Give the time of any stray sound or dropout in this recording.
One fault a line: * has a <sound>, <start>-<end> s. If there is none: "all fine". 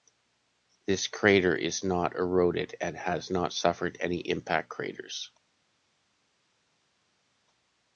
all fine